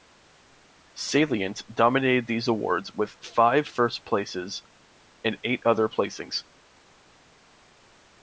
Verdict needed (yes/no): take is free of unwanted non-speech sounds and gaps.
yes